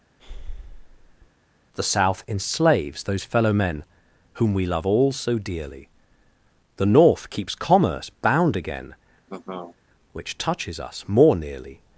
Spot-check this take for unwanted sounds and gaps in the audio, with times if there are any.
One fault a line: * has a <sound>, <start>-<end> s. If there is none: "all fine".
* has a breath, 0.2-1.3 s
* has a laugh, 9.3-9.8 s